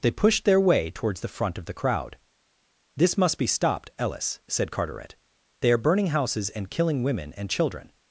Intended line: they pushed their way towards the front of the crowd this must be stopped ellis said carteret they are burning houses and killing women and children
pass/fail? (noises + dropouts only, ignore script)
pass